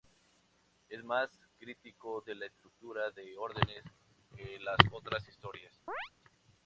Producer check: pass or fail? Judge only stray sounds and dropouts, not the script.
fail